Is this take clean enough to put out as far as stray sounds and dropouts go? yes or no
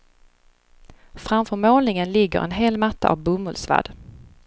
yes